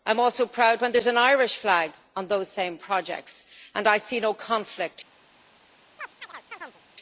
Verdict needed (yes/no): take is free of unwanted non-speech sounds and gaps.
no